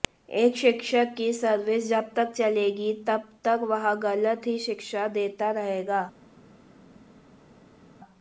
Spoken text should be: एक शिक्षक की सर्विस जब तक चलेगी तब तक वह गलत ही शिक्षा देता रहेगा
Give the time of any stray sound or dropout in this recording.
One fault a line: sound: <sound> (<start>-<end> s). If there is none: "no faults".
no faults